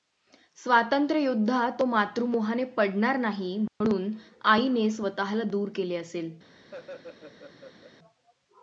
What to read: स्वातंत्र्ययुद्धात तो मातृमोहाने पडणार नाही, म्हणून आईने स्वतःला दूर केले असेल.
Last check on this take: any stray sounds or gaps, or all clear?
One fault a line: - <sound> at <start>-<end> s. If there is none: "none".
- dropout at 3.7-3.8 s
- laugh at 6.7-7.9 s